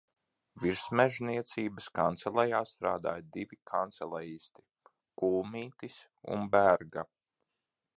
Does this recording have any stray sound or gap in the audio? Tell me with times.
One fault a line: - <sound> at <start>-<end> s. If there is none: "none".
none